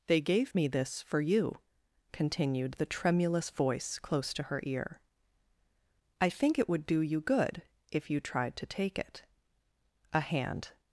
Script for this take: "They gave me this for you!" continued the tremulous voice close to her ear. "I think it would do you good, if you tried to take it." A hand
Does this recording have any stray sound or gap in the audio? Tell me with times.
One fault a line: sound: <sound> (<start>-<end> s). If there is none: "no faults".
no faults